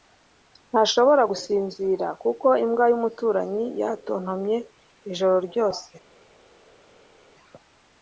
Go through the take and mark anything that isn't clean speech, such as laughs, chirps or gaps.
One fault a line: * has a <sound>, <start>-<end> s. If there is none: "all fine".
all fine